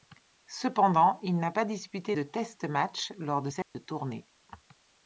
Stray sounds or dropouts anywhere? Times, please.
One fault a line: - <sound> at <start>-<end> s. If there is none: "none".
- dropout at 3.6-3.7 s